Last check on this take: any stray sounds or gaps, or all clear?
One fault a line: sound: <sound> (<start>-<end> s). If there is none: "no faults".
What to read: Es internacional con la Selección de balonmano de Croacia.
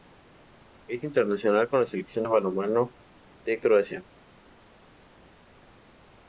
no faults